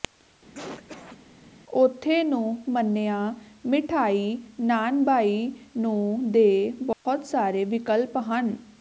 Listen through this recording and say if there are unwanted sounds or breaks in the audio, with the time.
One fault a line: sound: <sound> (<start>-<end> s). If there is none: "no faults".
sound: cough (0.5-1.2 s)
sound: dropout (6.9-7.1 s)